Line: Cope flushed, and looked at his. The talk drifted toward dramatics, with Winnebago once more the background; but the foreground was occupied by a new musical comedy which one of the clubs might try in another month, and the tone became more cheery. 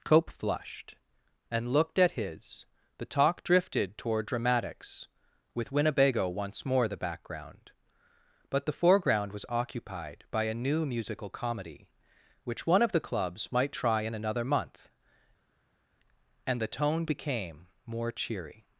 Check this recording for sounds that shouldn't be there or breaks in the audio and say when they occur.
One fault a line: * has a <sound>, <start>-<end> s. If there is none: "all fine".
all fine